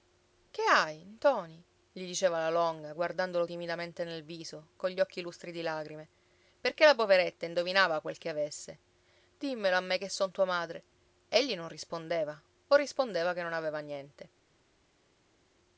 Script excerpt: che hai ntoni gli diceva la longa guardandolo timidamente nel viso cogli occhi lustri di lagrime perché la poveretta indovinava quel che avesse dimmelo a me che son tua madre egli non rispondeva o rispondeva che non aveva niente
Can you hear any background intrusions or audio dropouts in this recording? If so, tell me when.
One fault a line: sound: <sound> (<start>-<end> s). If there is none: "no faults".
no faults